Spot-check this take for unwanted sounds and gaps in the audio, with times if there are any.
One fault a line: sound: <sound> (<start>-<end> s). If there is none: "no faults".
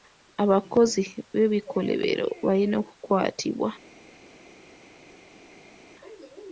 no faults